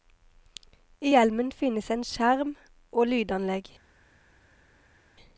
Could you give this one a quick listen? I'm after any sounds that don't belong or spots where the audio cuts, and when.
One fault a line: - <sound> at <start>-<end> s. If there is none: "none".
none